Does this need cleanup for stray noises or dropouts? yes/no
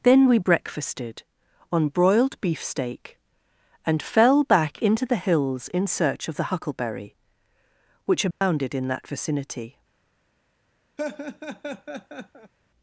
yes